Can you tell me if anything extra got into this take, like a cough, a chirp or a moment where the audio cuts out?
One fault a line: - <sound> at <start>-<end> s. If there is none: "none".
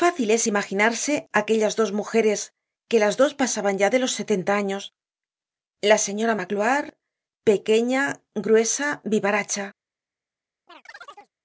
- chirp at 10.7-11.3 s